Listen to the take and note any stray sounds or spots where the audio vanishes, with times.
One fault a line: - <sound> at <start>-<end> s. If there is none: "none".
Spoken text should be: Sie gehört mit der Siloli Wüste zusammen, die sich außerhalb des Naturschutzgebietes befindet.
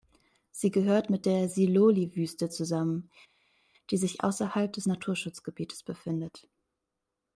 none